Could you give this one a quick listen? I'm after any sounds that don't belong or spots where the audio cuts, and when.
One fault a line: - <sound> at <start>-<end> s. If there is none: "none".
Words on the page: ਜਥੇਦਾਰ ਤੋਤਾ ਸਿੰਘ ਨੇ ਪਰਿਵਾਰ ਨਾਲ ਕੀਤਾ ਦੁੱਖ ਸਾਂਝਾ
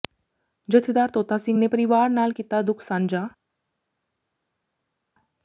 none